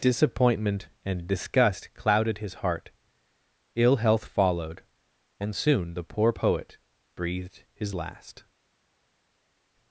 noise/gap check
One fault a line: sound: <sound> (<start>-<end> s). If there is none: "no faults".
no faults